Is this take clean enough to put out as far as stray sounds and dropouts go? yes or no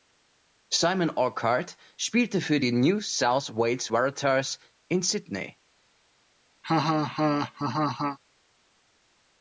no